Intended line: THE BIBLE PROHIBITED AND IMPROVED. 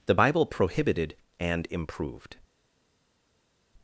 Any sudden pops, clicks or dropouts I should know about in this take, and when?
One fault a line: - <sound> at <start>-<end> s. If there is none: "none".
none